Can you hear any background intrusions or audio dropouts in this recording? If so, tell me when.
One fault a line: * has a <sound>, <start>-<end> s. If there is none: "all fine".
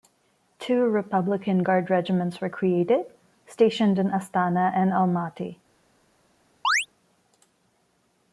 * has a chirp, 6.6-6.9 s